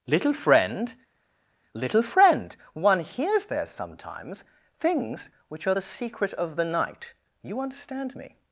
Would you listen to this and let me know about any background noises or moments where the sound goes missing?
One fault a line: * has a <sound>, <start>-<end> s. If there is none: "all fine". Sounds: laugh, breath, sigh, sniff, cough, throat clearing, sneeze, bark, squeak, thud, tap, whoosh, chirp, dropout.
all fine